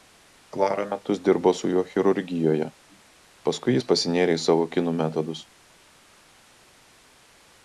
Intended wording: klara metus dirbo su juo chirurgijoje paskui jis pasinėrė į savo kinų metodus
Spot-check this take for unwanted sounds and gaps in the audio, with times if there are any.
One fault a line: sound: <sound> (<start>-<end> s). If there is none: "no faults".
no faults